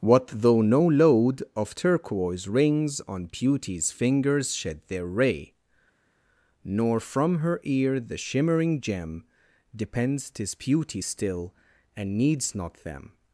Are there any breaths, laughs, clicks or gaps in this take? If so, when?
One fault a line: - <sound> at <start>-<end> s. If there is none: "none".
none